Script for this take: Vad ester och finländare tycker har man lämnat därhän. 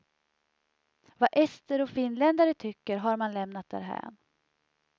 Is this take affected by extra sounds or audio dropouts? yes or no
no